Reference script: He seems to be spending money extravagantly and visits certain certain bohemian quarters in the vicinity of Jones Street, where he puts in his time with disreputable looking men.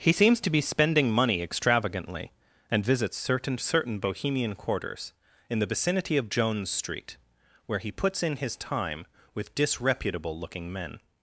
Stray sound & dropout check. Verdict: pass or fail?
pass